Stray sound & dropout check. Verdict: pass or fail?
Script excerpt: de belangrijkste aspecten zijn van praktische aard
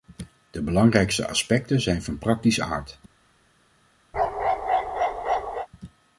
fail